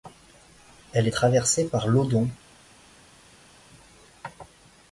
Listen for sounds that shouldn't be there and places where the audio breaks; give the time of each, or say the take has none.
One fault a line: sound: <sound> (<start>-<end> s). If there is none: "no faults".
no faults